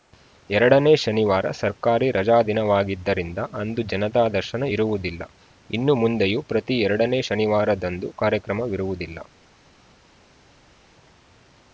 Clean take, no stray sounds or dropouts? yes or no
yes